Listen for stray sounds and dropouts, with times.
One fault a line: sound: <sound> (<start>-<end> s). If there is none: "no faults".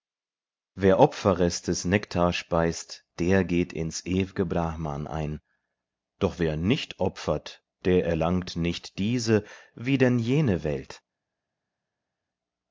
no faults